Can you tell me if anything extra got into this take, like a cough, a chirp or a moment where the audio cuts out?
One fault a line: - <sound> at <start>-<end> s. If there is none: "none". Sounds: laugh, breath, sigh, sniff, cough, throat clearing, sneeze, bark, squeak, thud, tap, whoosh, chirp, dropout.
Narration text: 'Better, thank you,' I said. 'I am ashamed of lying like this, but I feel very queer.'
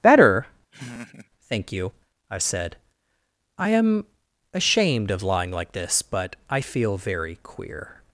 - laugh at 0.7-1.3 s